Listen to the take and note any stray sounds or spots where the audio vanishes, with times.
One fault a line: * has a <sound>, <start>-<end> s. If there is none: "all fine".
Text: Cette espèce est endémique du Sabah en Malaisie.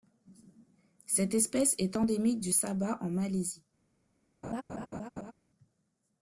* has a laugh, 4.4-5.3 s